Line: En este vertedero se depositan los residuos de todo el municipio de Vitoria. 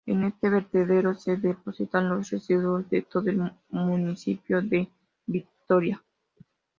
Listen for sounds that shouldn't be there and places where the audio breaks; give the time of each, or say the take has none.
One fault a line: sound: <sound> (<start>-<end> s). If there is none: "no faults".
no faults